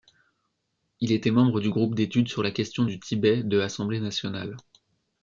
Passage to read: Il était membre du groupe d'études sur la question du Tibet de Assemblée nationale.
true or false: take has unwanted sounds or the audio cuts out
false